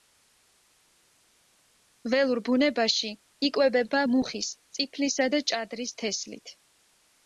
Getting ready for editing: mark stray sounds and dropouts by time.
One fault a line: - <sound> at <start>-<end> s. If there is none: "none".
none